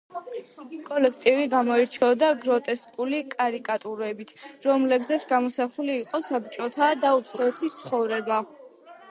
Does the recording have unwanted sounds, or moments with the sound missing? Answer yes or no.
yes